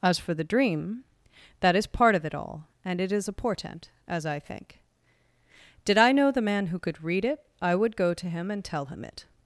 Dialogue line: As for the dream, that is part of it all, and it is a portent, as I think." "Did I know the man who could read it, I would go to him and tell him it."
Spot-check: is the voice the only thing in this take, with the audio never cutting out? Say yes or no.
yes